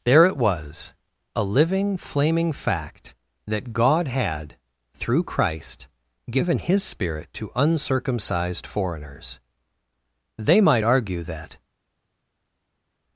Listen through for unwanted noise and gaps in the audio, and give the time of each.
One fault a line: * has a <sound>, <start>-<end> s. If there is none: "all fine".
all fine